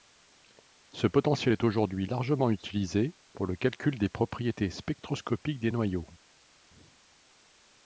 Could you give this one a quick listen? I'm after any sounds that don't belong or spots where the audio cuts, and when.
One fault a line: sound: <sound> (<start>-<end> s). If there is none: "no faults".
no faults